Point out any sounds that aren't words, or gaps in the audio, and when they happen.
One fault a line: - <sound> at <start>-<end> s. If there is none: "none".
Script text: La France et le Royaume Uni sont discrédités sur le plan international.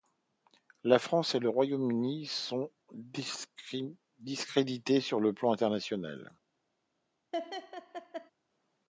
- laugh at 7.3-8.3 s